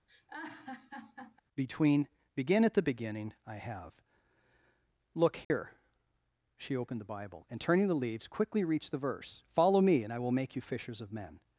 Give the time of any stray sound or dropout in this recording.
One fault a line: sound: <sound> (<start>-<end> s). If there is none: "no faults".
sound: laugh (0.1-1.4 s)
sound: dropout (5.4-5.5 s)